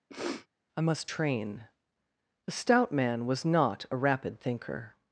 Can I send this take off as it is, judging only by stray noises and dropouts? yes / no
no